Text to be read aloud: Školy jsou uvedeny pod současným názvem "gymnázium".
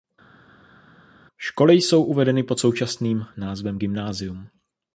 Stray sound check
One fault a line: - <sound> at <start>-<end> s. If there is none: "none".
none